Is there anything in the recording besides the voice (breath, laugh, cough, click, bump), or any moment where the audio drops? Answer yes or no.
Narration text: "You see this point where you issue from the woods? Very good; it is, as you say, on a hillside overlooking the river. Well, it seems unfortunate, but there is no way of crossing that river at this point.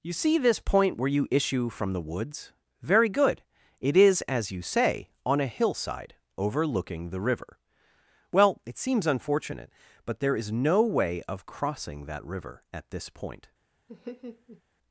yes